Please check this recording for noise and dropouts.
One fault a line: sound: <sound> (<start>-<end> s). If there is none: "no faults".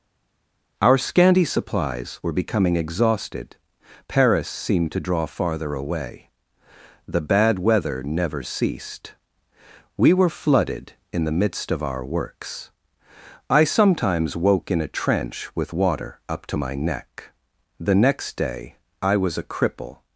no faults